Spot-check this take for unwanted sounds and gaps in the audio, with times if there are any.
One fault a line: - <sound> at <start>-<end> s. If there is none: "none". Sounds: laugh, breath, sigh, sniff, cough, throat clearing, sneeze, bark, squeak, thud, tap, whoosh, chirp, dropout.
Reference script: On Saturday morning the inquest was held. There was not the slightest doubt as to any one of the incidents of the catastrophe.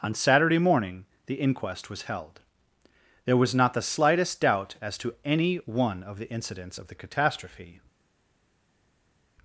none